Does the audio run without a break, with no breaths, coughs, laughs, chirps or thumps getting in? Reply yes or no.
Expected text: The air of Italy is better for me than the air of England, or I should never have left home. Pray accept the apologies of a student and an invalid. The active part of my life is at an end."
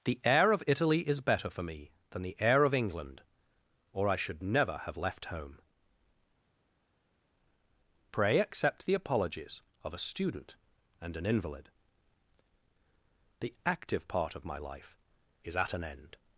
yes